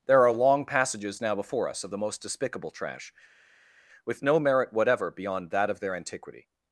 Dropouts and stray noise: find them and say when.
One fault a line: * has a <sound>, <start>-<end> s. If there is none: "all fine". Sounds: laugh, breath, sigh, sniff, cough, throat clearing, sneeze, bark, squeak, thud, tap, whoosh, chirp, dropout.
all fine